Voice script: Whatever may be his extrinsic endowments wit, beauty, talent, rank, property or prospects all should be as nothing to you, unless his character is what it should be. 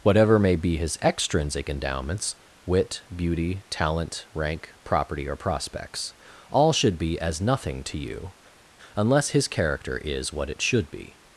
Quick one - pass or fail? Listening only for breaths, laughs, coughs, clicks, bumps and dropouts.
pass